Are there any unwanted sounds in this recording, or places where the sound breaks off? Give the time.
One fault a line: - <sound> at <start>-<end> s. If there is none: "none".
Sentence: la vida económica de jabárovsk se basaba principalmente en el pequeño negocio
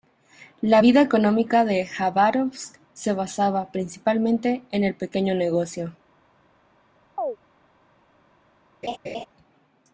- chirp at 7.2-7.4 s
- laugh at 8.8-9.3 s